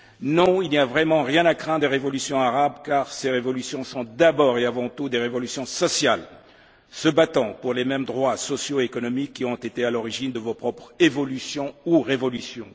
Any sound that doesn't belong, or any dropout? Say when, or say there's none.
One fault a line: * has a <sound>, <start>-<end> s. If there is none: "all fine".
all fine